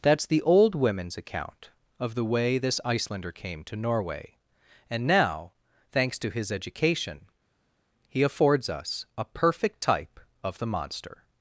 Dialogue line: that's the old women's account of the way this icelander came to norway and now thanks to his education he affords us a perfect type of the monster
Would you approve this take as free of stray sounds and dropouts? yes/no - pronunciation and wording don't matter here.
yes